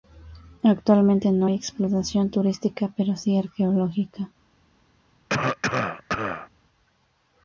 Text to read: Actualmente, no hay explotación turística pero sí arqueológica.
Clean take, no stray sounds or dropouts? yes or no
no